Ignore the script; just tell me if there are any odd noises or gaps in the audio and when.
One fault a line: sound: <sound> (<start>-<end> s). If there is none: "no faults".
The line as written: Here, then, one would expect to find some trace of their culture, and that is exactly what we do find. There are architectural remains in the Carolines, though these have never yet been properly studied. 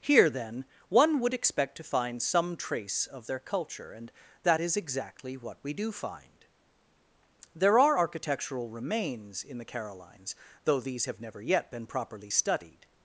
no faults